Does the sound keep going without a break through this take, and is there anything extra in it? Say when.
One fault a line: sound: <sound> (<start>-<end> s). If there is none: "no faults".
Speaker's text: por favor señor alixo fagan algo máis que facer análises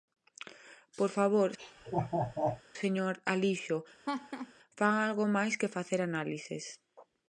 sound: laugh (1.6-2.6 s)
sound: laugh (4.1-4.5 s)